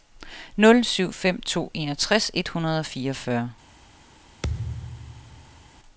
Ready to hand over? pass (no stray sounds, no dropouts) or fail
fail